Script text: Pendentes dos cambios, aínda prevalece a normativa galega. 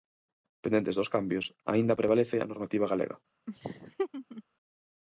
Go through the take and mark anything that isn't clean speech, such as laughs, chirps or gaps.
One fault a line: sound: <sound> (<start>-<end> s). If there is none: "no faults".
sound: laugh (3.5-4.4 s)